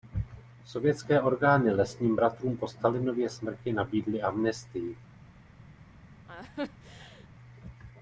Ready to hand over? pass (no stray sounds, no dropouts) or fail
fail